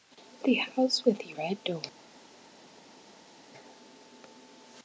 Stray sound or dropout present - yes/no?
no